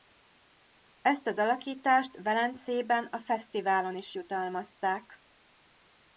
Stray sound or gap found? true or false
false